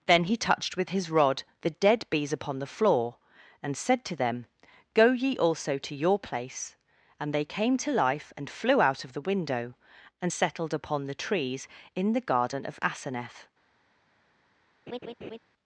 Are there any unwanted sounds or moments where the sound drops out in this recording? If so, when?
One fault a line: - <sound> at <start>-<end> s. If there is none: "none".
- laugh at 14.9-15.4 s